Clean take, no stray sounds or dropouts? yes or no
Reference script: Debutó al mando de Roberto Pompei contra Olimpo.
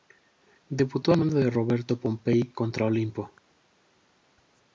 yes